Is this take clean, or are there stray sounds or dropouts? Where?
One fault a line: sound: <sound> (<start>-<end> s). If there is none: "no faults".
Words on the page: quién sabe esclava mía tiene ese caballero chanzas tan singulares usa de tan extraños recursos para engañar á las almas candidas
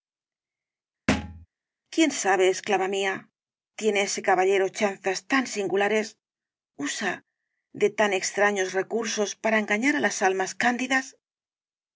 sound: thud (1.1-1.5 s)